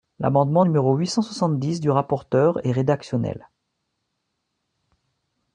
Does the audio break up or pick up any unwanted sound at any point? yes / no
no